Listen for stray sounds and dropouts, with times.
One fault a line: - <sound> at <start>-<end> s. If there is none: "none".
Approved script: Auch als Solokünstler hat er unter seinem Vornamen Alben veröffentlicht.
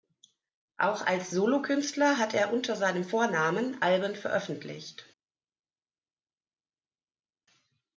none